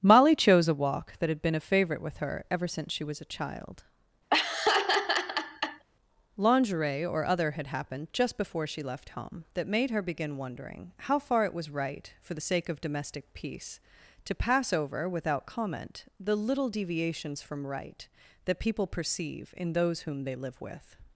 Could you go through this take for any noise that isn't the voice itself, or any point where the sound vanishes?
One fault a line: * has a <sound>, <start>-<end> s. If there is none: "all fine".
* has a laugh, 4.3-5.8 s